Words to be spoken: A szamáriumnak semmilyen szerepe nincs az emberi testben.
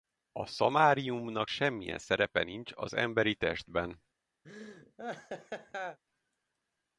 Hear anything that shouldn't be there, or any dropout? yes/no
yes